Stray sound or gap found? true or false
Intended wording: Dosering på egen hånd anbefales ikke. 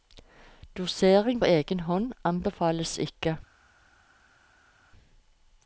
false